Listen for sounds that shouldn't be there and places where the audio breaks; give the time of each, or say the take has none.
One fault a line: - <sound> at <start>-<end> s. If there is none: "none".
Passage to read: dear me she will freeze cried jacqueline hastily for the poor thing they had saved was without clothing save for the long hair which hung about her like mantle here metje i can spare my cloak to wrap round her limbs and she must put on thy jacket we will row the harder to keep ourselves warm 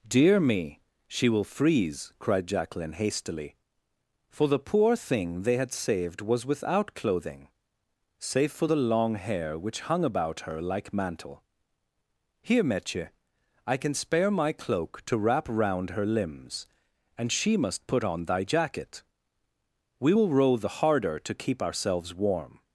none